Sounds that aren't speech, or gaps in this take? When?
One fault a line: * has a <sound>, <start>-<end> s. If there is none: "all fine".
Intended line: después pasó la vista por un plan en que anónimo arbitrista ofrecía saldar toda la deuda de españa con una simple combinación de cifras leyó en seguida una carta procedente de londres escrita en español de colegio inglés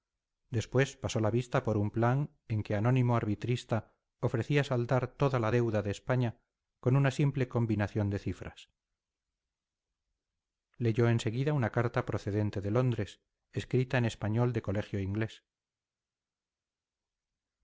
all fine